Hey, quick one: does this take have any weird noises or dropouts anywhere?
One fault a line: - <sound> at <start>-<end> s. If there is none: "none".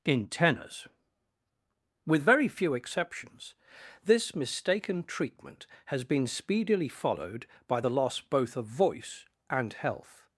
none